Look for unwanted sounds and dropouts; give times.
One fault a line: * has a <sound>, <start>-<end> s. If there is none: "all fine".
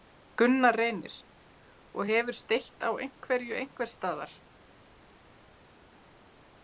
all fine